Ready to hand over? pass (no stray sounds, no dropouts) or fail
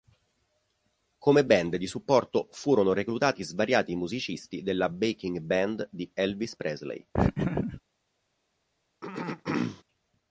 fail